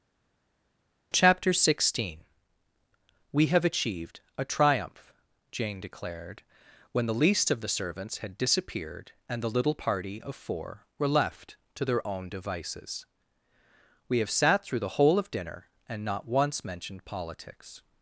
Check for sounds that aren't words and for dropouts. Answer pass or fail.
pass